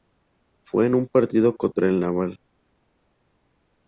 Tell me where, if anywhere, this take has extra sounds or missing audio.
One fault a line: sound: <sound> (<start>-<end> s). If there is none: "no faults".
no faults